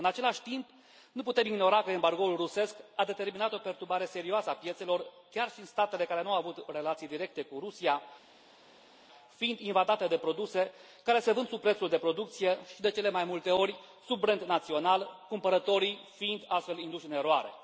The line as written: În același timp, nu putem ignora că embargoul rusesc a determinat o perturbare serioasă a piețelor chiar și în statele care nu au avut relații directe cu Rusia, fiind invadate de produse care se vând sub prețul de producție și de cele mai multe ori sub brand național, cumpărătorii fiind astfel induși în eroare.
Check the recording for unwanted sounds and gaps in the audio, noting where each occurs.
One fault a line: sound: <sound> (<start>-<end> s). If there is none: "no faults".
no faults